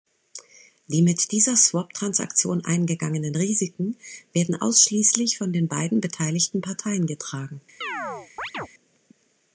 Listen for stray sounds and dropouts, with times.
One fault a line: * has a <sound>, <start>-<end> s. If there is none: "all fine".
* has a chirp, 7.8-8.7 s